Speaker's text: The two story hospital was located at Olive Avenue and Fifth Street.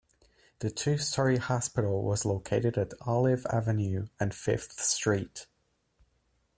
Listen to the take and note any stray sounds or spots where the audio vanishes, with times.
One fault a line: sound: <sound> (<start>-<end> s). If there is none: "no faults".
no faults